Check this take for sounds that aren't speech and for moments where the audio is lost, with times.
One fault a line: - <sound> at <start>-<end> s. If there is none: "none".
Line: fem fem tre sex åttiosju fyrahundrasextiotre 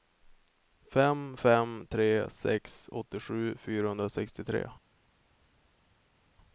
none